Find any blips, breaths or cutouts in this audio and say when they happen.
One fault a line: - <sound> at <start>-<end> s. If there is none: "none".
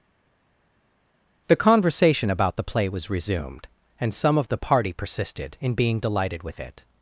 none